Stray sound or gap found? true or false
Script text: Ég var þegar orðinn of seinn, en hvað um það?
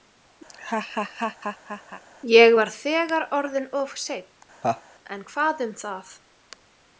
true